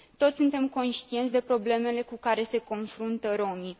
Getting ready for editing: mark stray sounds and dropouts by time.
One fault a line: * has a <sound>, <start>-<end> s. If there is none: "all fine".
all fine